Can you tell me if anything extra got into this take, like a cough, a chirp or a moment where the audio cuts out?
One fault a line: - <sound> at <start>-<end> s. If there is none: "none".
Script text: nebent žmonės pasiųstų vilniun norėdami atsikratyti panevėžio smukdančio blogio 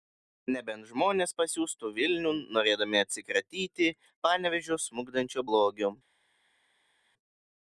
none